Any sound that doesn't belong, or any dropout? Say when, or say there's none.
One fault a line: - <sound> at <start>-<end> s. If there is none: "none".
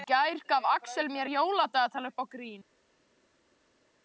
none